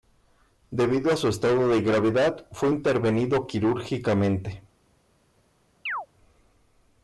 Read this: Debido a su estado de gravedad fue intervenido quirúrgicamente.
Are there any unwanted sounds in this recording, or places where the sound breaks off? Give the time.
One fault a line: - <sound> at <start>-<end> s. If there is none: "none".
- chirp at 5.9-6.1 s